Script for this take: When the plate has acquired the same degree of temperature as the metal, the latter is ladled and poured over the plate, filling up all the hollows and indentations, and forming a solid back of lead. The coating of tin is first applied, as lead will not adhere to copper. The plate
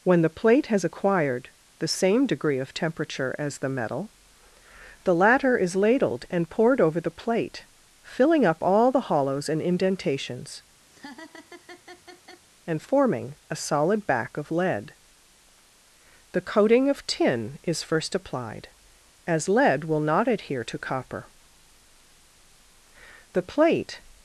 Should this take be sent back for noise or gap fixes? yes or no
yes